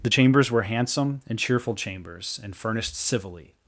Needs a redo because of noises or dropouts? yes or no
no